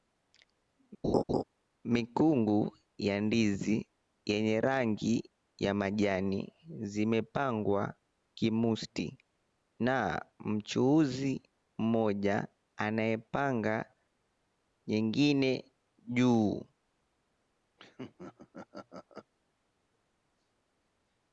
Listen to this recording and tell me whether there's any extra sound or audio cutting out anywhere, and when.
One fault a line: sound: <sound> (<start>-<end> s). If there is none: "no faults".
sound: laugh (1.0-1.4 s)
sound: laugh (17.8-19.3 s)